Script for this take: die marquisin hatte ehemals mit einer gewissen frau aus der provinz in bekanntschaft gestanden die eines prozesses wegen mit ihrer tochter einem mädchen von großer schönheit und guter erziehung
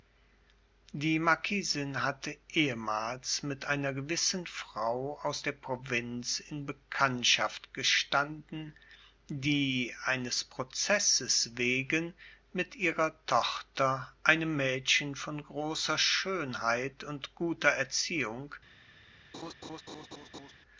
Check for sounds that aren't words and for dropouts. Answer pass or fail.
fail